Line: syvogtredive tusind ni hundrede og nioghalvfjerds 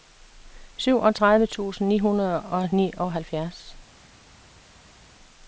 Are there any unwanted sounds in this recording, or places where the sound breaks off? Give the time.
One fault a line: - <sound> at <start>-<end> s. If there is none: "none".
none